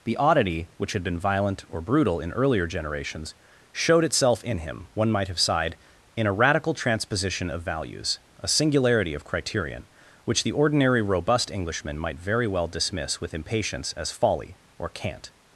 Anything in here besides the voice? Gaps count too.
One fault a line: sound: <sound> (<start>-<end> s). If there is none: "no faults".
no faults